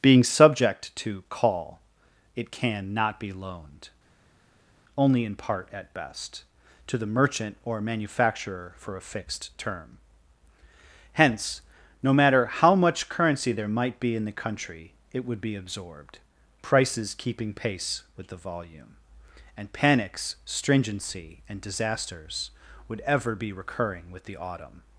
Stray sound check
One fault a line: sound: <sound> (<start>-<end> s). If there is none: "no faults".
no faults